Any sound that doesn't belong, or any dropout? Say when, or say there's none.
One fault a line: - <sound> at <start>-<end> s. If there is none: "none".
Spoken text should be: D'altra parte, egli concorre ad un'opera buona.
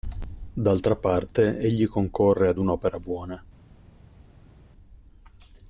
none